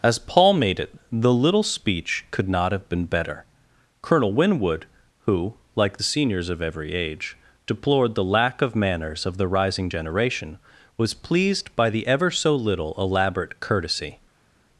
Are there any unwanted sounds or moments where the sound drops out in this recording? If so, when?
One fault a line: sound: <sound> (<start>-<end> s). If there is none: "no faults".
no faults